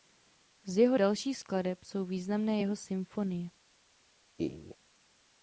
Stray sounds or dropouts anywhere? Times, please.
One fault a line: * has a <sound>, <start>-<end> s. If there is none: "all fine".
* has a laugh, 4.4-4.8 s